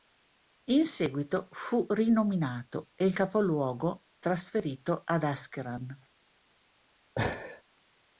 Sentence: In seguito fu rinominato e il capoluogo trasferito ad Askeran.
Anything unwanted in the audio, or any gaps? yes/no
yes